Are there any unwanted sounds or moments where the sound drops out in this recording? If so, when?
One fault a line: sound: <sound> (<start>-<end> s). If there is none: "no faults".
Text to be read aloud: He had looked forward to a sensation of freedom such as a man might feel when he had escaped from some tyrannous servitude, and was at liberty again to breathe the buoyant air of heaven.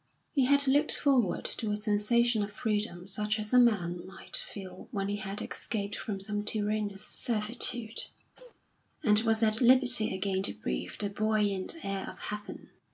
sound: cough (8.3-8.6 s)